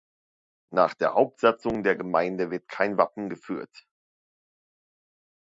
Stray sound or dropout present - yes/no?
no